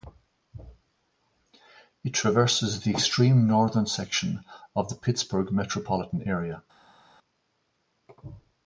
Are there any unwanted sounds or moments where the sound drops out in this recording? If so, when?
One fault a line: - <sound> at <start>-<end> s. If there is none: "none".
none